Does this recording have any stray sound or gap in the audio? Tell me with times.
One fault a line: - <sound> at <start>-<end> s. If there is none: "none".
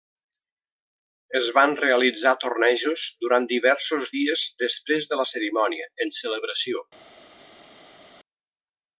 none